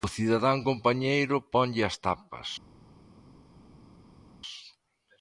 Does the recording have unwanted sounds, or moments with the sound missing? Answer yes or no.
no